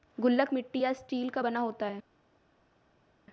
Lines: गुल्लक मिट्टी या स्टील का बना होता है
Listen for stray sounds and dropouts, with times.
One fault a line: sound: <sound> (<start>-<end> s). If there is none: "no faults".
no faults